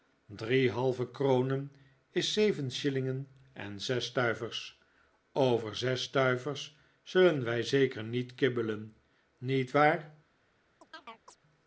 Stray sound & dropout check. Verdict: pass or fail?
fail